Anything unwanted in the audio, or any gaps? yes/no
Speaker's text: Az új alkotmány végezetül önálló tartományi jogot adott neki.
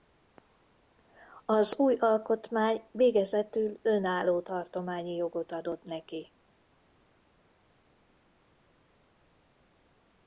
no